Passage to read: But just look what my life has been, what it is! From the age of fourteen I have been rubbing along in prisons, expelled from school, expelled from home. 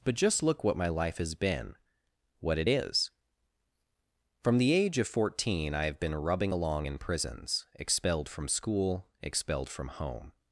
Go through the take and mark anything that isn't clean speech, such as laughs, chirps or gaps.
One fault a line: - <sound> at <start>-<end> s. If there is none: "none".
none